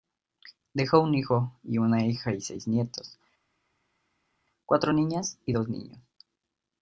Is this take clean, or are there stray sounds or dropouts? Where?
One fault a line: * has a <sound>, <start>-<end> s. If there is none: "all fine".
all fine